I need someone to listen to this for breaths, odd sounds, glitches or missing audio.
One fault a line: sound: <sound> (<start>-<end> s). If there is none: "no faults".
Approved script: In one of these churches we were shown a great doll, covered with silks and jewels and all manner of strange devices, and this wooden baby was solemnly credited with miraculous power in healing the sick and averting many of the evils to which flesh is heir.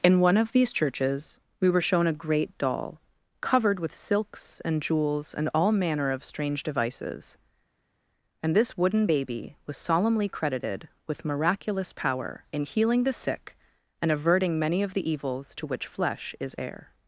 no faults